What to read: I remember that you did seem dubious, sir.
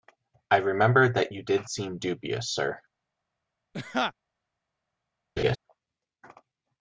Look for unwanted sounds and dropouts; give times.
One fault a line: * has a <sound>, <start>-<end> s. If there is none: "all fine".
* has a laugh, 3.7-4.1 s
* has a laugh, 5.4-5.6 s